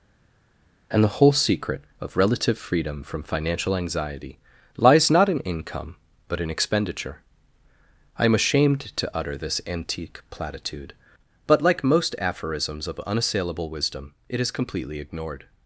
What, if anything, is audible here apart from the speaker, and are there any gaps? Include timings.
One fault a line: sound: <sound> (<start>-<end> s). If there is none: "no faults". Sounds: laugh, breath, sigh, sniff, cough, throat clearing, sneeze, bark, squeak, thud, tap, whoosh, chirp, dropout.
no faults